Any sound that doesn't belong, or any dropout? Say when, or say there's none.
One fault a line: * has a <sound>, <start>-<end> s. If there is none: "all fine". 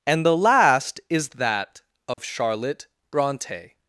* has a dropout, 2.1-2.2 s